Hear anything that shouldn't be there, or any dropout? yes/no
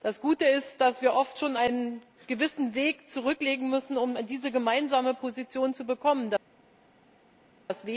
no